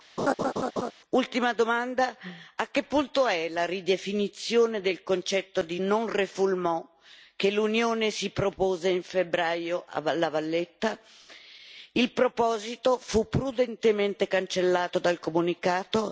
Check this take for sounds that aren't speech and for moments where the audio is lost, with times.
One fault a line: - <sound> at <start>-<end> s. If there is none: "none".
- laugh at 0.2-0.9 s